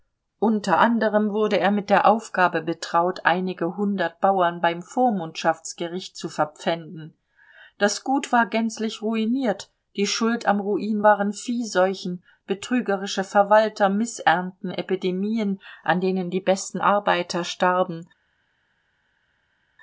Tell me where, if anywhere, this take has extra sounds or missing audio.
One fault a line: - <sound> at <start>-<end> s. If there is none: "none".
none